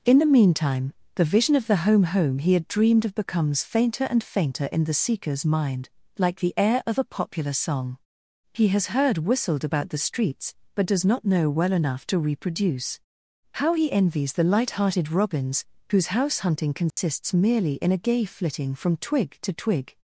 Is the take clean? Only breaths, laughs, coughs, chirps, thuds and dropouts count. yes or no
no